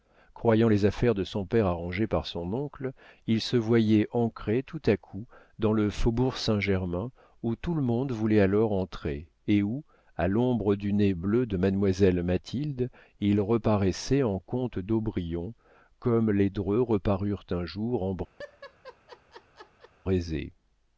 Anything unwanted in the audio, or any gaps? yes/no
yes